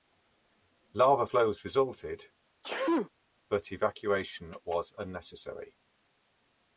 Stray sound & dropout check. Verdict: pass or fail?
fail